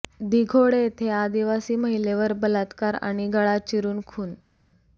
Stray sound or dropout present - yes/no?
no